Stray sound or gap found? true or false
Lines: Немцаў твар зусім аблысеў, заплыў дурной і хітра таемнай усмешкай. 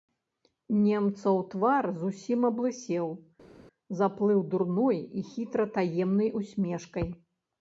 false